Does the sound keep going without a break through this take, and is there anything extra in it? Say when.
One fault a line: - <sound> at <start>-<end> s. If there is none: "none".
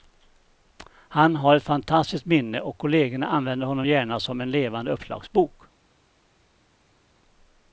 none